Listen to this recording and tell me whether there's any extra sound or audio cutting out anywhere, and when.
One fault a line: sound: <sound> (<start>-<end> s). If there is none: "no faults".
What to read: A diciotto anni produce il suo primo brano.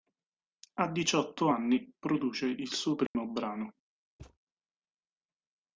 sound: dropout (3.1-3.1 s)
sound: thud (4.2-4.4 s)